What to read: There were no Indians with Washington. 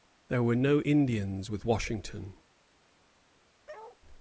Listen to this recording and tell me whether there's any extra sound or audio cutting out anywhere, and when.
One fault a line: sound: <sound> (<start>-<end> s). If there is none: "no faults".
sound: bark (3.7-4.0 s)